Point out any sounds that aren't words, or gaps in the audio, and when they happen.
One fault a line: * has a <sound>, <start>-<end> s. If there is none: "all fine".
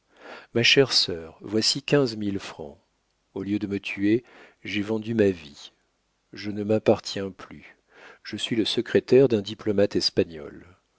all fine